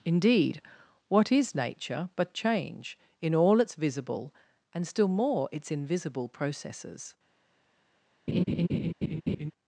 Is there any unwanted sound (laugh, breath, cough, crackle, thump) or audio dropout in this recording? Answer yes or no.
yes